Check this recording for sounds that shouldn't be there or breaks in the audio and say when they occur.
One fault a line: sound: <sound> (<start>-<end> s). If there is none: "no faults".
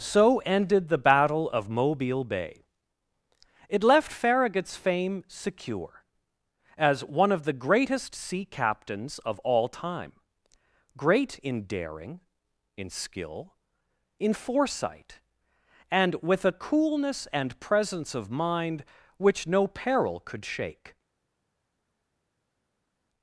no faults